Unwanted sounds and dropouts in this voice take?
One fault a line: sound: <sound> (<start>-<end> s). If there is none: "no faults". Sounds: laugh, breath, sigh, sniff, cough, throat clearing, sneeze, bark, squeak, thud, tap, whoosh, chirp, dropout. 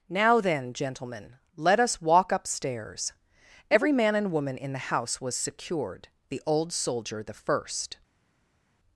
no faults